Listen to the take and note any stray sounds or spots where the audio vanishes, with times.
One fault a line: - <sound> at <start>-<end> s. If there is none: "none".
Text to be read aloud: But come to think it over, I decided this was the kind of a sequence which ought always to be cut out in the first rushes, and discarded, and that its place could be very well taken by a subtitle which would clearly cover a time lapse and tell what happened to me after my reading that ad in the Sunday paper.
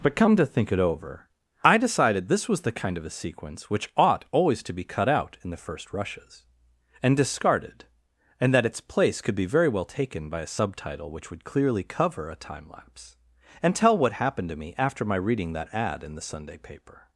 none